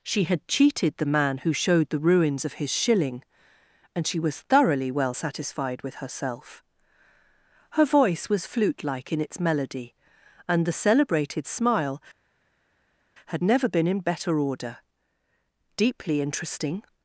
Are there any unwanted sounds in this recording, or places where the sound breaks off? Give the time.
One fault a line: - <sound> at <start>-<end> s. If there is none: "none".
none